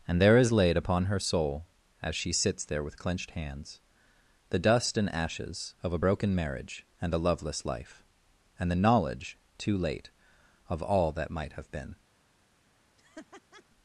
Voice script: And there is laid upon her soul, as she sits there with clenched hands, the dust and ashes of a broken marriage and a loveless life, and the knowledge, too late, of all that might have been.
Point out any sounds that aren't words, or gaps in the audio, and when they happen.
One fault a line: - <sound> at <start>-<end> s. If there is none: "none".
- laugh at 13.0-13.6 s